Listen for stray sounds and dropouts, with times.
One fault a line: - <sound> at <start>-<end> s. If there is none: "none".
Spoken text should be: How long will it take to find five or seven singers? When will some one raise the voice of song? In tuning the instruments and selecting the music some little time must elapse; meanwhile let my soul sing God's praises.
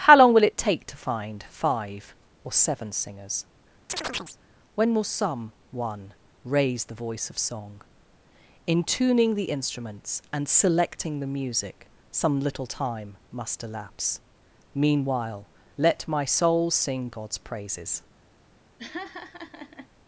- chirp at 3.9-4.4 s
- laugh at 18.8-19.9 s